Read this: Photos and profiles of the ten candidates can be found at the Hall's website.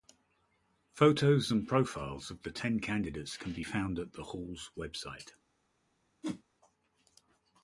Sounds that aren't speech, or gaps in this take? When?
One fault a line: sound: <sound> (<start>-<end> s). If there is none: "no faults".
sound: whoosh (6.2-6.4 s)